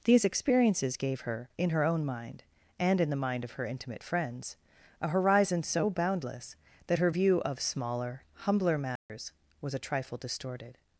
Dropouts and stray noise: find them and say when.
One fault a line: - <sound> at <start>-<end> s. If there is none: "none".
- dropout at 9.0-9.1 s